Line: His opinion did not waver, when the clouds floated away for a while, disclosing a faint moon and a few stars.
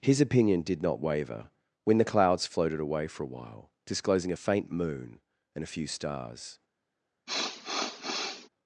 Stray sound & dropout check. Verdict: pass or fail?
fail